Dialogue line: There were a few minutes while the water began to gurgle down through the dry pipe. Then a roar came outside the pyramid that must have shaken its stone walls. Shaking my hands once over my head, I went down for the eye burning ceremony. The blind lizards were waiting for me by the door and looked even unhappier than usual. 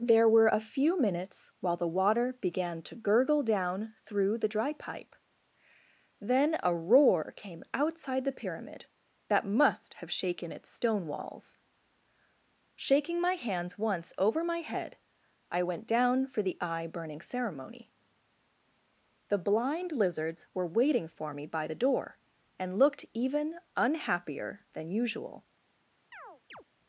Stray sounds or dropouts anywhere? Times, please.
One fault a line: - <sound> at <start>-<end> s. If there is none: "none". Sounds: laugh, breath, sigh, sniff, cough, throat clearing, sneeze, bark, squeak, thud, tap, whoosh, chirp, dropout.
- chirp at 26.1-26.6 s